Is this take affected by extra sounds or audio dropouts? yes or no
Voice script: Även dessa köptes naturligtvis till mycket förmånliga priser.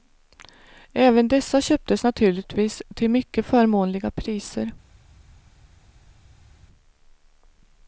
no